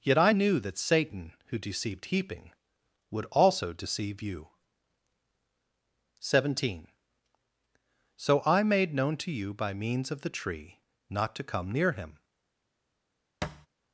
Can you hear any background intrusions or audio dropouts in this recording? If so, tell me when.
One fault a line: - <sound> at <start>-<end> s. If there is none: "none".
- thud at 13.4-13.7 s